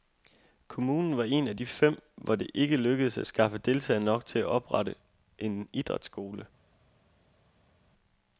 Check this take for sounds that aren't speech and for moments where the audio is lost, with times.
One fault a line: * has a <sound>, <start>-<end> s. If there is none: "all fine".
all fine